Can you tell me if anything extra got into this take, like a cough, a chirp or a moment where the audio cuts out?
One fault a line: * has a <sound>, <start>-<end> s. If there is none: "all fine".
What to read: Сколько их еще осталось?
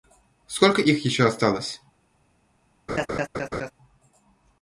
* has a laugh, 2.9-3.7 s